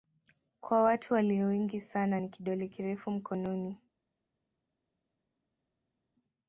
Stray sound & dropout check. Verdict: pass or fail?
pass